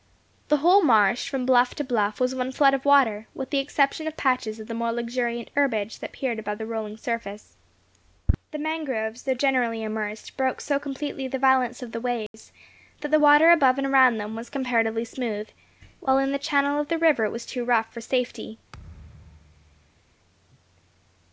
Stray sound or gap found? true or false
true